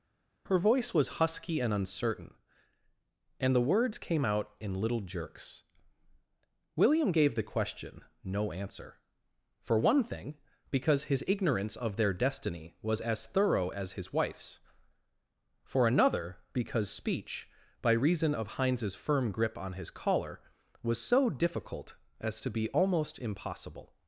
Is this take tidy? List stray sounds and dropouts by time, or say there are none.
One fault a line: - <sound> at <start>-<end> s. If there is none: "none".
none